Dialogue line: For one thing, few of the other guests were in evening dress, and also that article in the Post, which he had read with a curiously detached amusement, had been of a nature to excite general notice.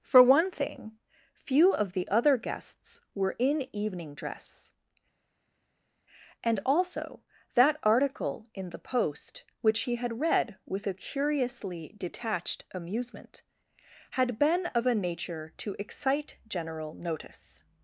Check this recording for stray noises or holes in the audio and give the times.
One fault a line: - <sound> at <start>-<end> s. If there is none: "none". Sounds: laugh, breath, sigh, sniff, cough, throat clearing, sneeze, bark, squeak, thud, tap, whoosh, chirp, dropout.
none